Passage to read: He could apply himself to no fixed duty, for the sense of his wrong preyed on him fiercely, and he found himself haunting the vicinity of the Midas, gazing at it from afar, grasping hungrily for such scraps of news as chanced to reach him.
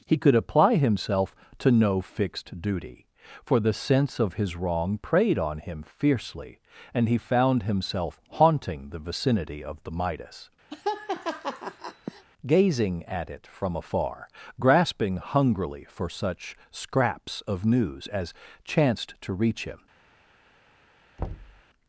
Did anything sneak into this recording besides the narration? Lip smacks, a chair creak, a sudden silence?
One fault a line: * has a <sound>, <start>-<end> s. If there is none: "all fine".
* has a laugh, 10.7-12.2 s
* has a thud, 21.2-21.6 s